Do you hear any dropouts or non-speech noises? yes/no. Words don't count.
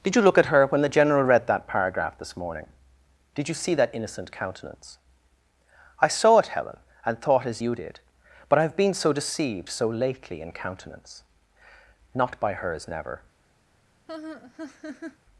yes